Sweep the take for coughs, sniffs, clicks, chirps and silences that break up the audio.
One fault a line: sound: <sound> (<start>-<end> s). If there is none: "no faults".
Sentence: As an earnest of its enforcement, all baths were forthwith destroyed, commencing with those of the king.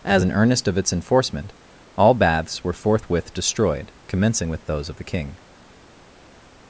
no faults